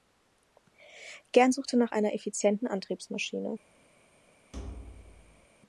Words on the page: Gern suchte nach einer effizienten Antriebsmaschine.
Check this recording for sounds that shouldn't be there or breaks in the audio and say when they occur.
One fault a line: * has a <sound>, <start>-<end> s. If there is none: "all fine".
* has a thud, 4.5-5.5 s